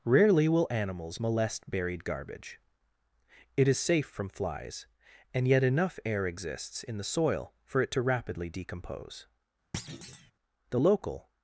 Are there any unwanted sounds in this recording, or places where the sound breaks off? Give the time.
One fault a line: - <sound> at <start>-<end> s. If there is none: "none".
- thud at 9.7-10.3 s